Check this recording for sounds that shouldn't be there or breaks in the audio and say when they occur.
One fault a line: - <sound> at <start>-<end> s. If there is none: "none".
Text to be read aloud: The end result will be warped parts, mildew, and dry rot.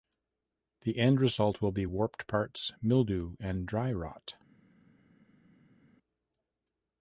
none